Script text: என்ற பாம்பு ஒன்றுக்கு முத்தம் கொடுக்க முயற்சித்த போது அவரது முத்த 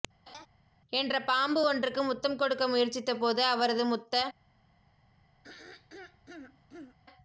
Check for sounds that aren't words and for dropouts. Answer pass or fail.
fail